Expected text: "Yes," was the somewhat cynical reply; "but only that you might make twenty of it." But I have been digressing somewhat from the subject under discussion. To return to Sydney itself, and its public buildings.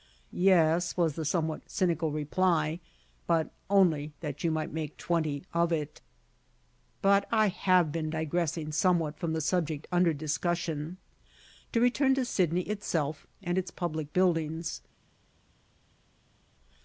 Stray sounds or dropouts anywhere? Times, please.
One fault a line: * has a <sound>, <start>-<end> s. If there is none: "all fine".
all fine